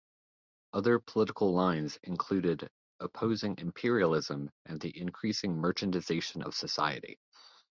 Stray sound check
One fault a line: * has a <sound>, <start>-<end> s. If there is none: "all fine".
all fine